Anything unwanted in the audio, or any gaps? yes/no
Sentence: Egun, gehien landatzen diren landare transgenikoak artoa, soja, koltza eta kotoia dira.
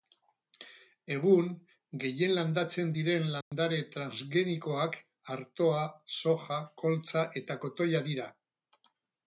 yes